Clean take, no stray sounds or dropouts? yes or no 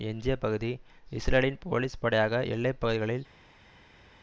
yes